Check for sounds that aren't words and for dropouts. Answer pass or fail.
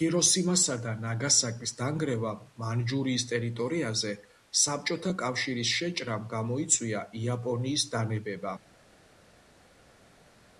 pass